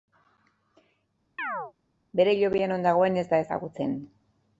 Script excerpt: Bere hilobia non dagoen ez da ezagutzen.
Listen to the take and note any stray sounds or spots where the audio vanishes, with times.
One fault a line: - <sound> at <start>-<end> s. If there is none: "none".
- chirp at 1.4-1.7 s